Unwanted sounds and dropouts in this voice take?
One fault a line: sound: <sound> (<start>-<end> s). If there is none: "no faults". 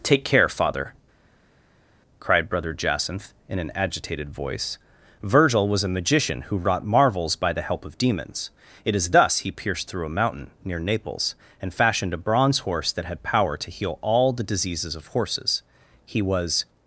no faults